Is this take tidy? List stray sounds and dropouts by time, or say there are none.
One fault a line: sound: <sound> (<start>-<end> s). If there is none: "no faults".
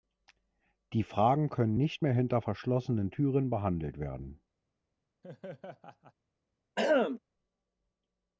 sound: laugh (5.2-6.1 s)
sound: throat clearing (6.8-7.2 s)